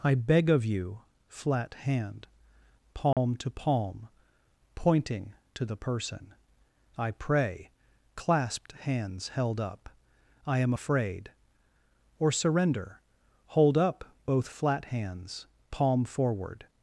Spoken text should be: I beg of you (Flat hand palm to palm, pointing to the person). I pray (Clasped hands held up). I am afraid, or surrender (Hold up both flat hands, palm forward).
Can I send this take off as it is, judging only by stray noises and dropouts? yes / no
no